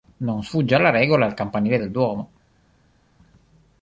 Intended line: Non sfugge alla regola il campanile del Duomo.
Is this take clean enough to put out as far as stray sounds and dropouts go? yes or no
yes